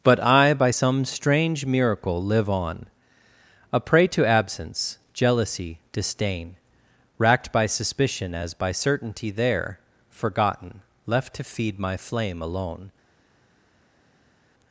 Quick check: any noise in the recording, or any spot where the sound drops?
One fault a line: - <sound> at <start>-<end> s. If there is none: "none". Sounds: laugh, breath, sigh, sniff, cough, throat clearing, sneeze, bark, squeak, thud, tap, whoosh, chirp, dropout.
none